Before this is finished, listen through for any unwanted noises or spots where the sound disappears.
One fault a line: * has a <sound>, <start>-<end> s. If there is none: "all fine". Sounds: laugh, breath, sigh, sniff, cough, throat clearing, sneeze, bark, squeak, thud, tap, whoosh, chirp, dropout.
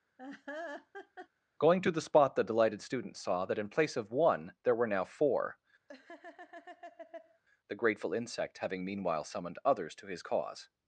* has a laugh, 0.2-1.3 s
* has a laugh, 5.9-7.4 s